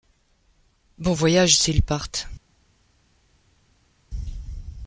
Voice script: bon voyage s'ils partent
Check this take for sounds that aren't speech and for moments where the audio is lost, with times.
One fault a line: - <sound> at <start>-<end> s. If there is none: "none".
none